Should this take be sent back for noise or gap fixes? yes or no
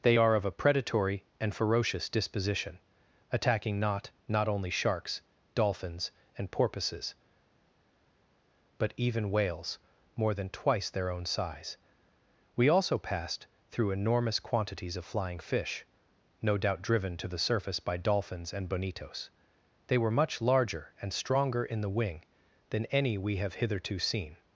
no